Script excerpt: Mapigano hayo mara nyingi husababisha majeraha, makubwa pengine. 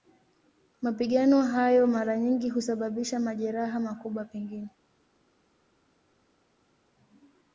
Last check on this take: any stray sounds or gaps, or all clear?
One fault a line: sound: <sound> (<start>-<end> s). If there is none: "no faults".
no faults